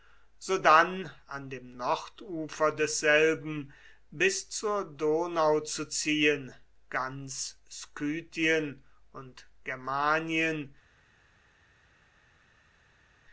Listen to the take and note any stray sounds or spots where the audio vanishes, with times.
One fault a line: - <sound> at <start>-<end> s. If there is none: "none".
none